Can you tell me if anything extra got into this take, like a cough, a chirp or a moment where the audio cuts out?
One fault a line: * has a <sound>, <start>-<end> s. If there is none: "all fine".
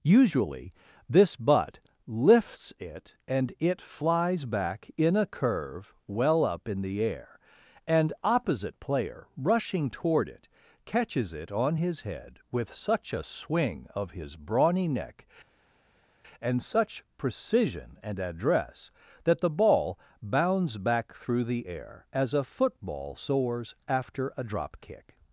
all fine